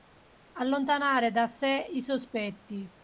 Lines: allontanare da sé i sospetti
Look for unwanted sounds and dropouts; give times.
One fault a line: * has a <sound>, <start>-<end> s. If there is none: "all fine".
all fine